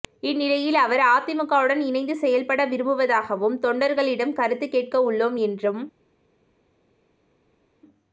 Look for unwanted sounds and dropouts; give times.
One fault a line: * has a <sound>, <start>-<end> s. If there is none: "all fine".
all fine